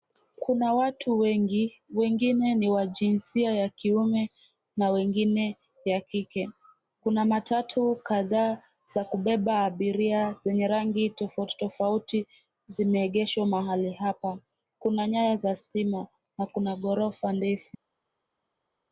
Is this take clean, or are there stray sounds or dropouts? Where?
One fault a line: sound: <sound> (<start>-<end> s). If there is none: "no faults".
no faults